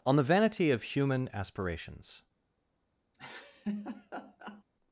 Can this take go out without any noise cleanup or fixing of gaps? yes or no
no